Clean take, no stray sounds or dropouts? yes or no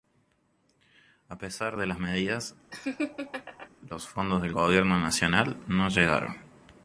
no